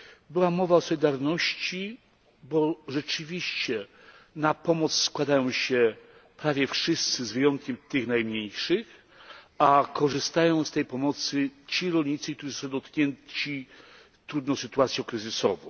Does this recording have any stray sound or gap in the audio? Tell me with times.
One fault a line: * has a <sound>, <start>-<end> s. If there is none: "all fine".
all fine